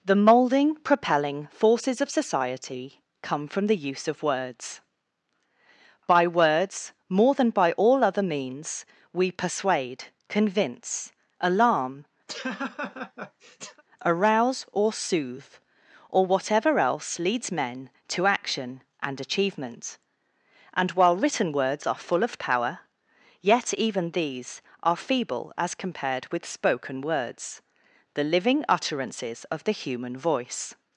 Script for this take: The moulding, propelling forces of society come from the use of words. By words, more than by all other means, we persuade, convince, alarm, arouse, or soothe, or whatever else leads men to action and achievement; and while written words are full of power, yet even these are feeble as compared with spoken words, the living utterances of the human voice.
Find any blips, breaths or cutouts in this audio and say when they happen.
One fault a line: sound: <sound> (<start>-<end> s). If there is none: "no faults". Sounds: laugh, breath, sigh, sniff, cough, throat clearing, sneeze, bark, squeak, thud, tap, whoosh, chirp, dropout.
sound: laugh (12.3-13.8 s)